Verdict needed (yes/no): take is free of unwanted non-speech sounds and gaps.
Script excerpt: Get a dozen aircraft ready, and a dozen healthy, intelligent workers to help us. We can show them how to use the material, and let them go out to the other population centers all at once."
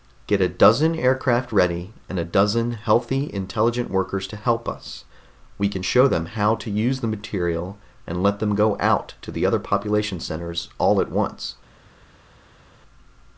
yes